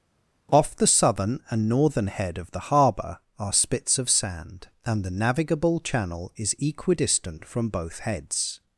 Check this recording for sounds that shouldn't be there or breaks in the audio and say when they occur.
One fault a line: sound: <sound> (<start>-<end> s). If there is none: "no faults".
no faults